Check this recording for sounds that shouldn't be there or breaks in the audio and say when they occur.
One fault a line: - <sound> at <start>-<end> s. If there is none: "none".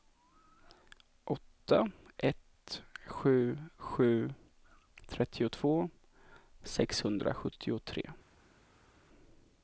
none